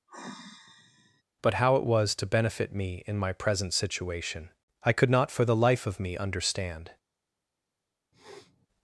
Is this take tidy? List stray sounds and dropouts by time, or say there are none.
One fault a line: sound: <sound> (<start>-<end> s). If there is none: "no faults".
sound: sigh (0.1-1.2 s)
sound: sniff (8.1-8.7 s)